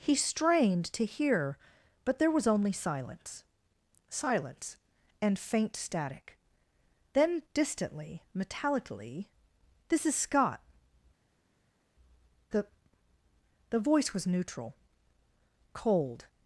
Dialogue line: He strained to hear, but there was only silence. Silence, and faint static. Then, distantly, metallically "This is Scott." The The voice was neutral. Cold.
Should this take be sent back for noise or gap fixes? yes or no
no